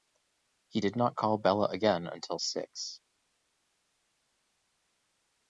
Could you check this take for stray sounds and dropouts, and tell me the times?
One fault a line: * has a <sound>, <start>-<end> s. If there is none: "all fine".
all fine